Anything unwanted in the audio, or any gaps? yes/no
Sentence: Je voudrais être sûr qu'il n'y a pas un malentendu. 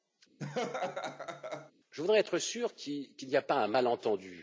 yes